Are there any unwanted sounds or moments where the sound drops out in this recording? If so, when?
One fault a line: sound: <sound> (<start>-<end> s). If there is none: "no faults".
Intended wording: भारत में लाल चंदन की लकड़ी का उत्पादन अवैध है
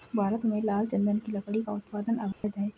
sound: dropout (2.3-2.4 s)